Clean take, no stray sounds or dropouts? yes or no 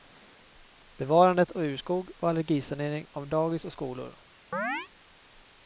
no